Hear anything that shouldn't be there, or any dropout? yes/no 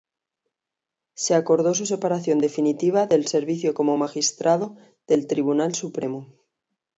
no